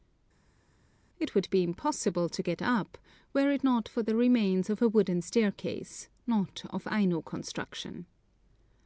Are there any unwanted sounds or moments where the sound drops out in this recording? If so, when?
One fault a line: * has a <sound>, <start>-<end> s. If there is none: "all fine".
all fine